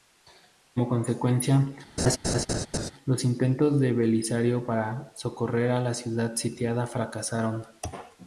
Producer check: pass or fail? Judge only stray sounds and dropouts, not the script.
fail